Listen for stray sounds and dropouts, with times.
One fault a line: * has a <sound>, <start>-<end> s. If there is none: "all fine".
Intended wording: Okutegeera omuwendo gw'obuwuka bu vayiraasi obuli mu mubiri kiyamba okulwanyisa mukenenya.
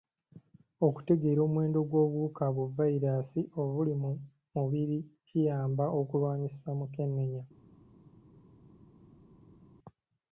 all fine